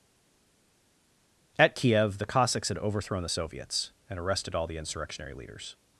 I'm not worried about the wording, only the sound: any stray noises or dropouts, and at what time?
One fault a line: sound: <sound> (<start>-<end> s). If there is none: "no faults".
no faults